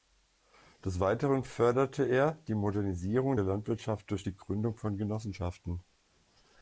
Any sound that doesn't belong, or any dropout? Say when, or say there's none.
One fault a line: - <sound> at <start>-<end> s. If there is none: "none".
none